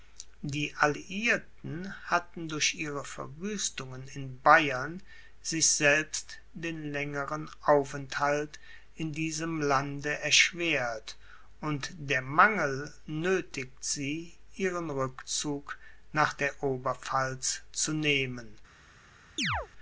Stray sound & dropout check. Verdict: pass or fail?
fail